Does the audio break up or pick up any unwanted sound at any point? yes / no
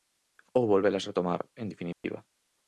yes